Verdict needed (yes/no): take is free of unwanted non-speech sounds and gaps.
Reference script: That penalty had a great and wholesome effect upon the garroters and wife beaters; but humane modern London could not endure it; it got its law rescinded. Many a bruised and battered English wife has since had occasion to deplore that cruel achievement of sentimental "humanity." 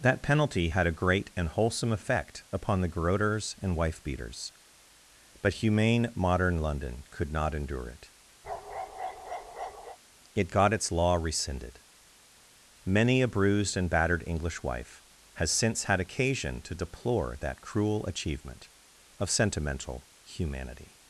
no